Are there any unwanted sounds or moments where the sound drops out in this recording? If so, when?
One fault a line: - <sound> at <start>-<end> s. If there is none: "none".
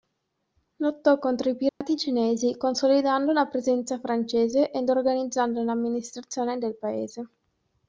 - dropout at 1.7-1.8 s